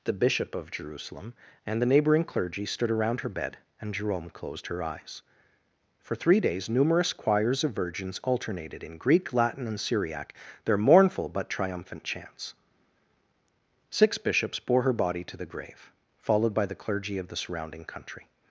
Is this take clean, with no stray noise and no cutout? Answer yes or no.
yes